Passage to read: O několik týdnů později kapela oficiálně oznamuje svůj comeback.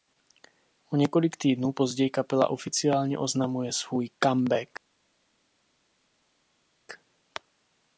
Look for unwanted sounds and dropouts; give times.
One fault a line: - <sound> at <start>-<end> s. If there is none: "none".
none